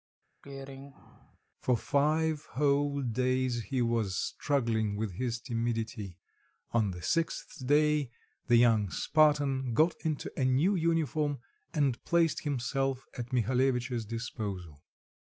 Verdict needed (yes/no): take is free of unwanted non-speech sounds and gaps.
no